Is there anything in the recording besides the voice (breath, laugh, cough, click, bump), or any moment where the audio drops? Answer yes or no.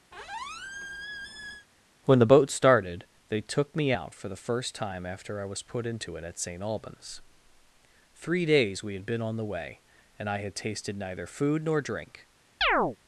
yes